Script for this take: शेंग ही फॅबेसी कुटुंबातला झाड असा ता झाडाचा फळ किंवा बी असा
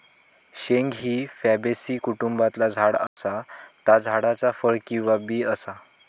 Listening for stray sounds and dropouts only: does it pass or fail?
fail